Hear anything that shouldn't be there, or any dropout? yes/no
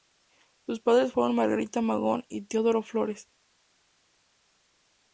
no